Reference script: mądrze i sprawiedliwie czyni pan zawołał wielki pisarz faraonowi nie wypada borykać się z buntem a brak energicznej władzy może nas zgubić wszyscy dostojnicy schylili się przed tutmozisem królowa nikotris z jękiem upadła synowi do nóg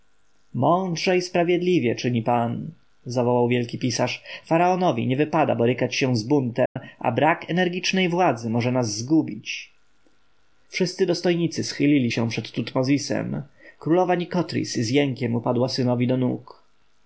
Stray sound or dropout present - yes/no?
yes